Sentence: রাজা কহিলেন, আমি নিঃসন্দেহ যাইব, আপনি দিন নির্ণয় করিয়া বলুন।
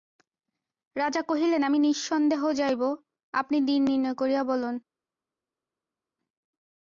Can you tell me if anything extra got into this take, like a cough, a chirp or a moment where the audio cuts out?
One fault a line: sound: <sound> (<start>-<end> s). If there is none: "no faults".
no faults